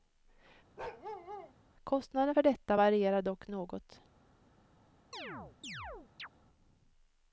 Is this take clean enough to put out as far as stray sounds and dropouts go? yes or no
no